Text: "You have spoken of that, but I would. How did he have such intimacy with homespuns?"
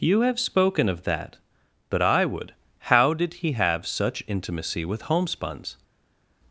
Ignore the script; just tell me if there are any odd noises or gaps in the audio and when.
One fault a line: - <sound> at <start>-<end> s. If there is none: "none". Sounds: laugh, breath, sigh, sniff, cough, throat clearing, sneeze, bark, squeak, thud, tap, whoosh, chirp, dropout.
none